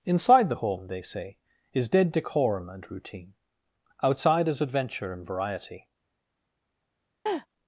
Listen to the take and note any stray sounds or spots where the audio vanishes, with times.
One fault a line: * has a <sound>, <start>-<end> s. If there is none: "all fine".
* has a laugh, 7.3-7.5 s